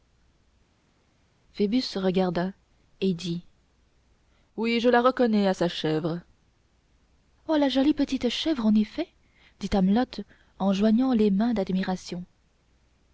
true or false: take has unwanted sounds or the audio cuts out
false